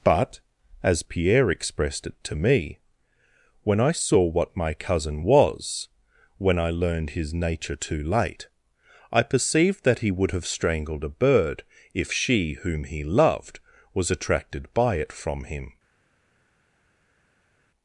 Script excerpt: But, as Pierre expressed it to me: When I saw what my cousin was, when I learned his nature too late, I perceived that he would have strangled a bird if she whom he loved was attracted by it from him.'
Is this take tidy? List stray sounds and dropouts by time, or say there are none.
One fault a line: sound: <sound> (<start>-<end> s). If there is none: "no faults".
no faults